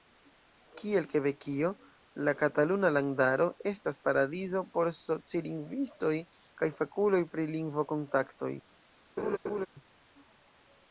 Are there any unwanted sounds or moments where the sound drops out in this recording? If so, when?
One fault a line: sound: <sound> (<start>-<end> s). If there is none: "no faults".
sound: laugh (9.2-9.7 s)